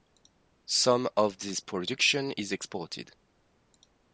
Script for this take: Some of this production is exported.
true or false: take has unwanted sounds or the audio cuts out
false